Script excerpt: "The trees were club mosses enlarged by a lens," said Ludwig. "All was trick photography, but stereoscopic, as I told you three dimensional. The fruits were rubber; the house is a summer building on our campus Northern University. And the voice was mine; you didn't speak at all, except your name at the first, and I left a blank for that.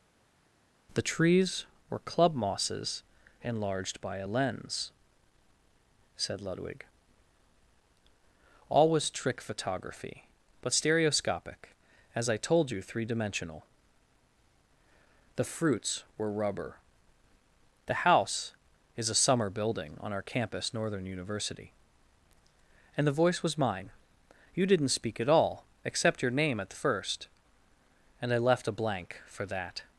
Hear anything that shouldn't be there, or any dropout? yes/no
no